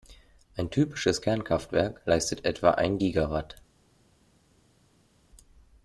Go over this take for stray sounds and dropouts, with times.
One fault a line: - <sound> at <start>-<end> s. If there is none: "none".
none